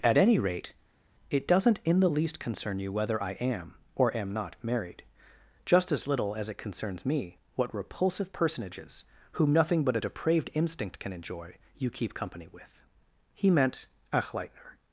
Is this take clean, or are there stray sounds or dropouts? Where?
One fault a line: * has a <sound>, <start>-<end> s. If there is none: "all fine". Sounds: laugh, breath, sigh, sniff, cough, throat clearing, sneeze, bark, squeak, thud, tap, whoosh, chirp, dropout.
all fine